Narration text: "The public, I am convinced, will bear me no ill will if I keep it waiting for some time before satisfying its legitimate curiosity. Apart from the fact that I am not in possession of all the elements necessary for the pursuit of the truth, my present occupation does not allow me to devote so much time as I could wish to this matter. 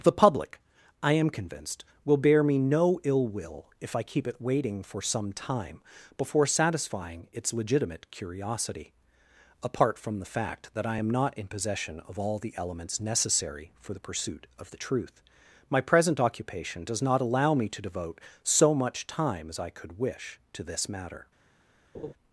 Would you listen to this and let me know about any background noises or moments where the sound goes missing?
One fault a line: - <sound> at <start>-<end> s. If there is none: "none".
- laugh at 21.9-22.1 s